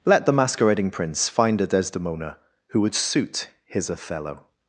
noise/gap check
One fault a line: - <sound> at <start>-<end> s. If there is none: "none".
none